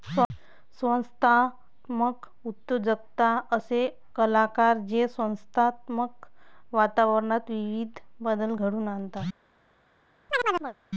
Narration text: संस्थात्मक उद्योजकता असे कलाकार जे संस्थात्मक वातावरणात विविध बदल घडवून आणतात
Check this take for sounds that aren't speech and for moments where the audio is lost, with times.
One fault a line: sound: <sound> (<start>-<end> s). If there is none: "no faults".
sound: chirp (10.3-10.8 s)